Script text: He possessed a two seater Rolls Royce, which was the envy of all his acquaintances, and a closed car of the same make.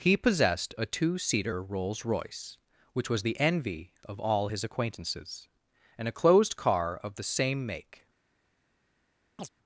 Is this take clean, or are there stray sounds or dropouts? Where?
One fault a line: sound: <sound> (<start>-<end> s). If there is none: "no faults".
sound: chirp (9.4-9.5 s)